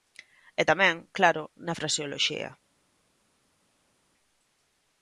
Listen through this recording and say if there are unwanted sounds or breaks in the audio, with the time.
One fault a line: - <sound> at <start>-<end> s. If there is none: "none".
none